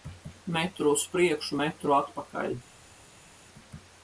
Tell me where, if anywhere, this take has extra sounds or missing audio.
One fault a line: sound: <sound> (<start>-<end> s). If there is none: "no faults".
no faults